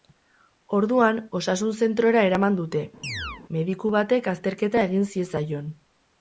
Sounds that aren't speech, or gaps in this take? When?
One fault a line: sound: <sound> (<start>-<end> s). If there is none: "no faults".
sound: chirp (3.0-3.4 s)